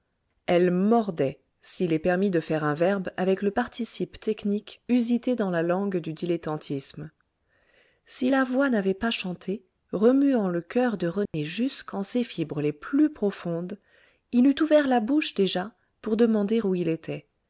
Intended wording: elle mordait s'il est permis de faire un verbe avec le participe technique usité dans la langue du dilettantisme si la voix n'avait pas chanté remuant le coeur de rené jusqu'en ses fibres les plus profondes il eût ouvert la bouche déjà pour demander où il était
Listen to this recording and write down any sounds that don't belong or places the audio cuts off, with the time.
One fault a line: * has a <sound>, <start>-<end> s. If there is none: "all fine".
* has a dropout, 11.3-11.3 s